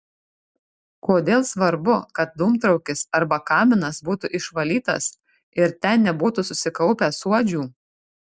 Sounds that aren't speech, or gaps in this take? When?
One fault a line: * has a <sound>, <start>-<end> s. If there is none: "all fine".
all fine